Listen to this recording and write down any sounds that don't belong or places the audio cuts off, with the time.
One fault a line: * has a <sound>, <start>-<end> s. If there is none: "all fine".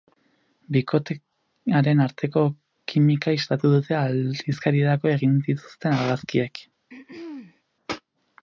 * has a throat clearing, 6.9-7.6 s